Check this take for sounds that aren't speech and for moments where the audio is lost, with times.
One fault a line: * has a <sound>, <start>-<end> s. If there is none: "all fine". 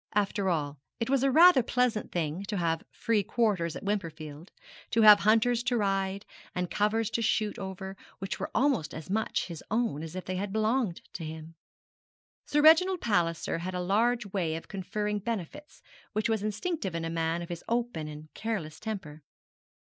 all fine